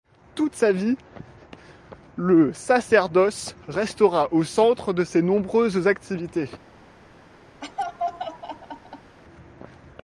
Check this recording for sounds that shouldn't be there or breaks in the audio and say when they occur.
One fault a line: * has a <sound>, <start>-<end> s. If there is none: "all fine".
* has a laugh, 7.6-9.2 s